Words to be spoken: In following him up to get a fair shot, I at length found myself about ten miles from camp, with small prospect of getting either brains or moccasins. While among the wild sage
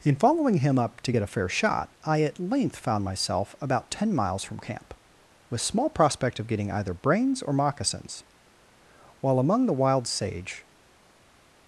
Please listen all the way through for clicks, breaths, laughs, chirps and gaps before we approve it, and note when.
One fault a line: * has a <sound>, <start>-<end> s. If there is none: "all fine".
all fine